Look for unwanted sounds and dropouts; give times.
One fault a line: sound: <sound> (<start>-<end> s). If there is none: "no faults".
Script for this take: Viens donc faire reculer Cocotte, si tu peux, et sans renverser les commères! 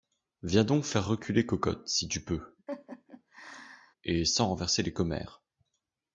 sound: laugh (2.7-3.9 s)